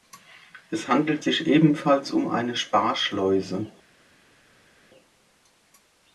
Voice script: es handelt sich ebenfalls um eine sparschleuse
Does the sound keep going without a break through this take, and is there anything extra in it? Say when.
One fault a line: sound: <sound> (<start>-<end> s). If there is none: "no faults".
no faults